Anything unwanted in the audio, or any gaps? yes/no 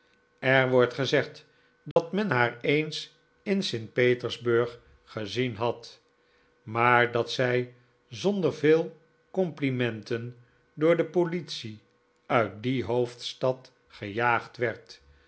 yes